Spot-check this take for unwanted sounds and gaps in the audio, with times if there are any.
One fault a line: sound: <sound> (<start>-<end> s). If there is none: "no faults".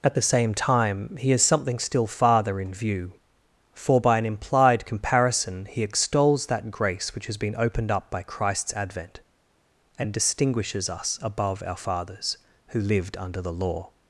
no faults